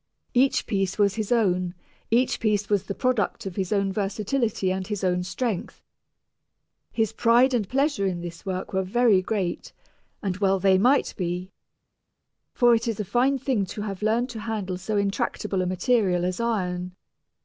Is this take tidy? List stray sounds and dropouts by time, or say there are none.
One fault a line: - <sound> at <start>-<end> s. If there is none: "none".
none